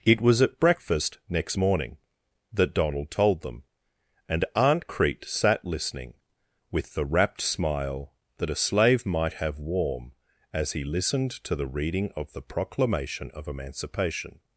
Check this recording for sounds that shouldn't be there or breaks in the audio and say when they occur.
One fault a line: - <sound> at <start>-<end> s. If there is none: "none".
none